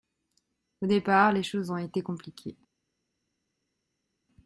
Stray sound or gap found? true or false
false